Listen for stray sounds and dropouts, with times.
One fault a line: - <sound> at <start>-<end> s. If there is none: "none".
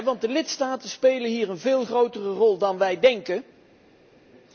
none